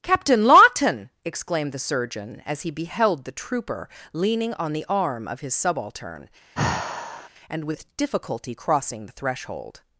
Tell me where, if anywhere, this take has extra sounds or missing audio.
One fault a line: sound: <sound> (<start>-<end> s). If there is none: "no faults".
sound: sigh (6.5-7.3 s)